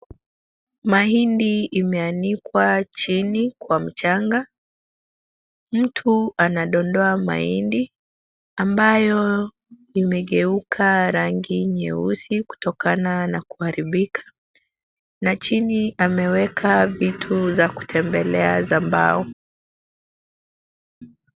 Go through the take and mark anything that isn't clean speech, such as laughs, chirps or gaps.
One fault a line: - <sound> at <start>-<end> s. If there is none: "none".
none